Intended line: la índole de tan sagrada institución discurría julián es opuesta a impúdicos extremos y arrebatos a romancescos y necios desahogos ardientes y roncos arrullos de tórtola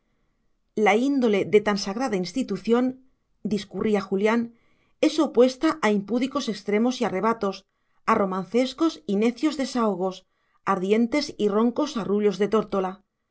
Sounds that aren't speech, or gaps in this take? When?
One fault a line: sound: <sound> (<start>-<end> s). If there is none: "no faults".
no faults